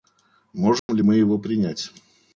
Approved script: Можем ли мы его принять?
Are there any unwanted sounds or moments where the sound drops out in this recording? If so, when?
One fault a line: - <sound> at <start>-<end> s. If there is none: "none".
- dropout at 0.8-0.9 s